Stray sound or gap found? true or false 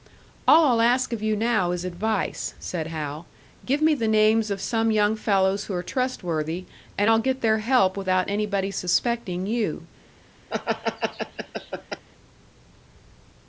true